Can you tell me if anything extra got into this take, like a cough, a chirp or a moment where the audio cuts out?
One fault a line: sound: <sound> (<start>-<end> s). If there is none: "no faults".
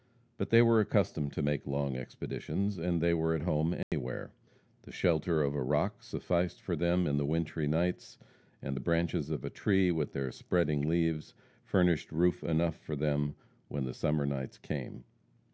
sound: dropout (3.8-3.9 s)